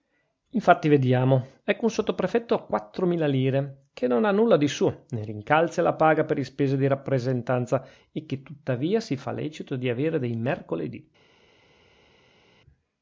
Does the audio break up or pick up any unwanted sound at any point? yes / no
no